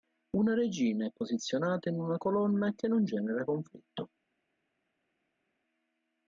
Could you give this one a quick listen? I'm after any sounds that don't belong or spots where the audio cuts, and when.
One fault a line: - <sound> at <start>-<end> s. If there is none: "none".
none